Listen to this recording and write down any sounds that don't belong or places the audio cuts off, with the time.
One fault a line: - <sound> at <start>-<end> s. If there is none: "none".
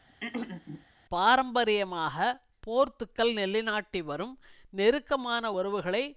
- throat clearing at 0.1-0.9 s